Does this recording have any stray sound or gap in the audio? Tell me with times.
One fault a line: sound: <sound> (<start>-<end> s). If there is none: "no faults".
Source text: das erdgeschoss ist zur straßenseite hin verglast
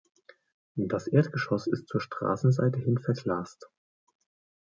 no faults